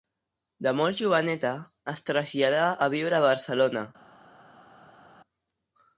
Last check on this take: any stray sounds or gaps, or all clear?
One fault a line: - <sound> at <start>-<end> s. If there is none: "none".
none